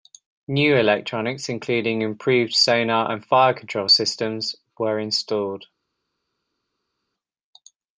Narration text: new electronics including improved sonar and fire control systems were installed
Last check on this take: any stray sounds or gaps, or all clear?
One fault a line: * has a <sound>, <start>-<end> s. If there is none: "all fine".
all fine